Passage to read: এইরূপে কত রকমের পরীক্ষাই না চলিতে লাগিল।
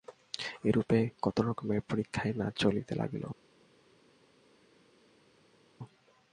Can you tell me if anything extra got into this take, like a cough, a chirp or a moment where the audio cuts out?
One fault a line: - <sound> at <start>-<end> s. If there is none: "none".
none